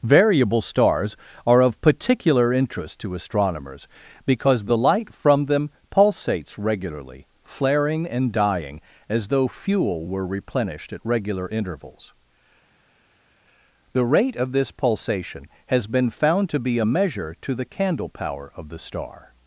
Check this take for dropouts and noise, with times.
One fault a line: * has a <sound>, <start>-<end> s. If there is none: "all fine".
all fine